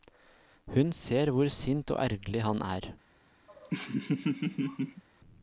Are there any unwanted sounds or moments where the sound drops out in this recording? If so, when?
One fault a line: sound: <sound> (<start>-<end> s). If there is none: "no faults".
sound: laugh (3.5-5.0 s)